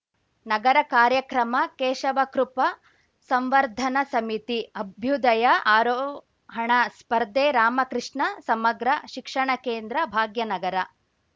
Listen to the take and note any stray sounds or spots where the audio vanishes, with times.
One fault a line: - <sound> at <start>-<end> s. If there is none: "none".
none